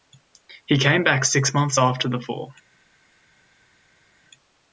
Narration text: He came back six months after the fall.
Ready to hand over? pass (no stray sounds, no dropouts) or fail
pass